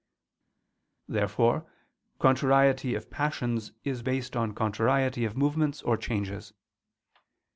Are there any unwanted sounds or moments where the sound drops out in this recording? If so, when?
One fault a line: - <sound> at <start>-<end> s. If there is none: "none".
none